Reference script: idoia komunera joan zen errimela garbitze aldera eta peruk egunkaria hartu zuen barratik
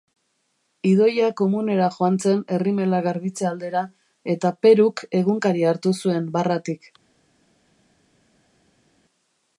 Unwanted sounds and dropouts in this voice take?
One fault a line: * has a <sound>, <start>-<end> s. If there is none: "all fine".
all fine